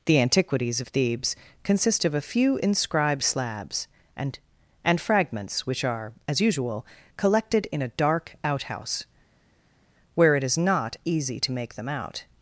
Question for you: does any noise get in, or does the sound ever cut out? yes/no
no